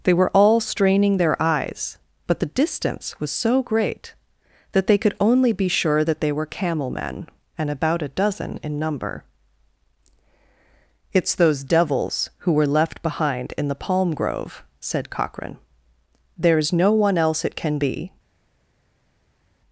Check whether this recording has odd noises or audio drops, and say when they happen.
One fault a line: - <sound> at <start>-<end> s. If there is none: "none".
none